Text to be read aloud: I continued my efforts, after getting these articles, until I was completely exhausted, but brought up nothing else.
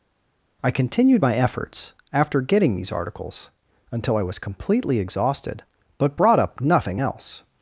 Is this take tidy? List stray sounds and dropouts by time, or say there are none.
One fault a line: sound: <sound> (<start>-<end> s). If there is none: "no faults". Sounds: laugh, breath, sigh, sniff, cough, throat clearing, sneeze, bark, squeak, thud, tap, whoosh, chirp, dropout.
no faults